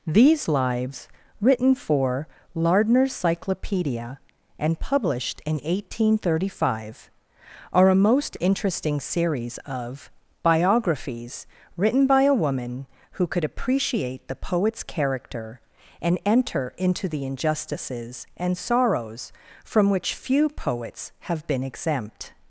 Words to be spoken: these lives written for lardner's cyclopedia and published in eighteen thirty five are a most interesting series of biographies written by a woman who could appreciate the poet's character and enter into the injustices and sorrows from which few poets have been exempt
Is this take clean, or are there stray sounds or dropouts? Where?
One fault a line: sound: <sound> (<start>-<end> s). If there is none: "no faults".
no faults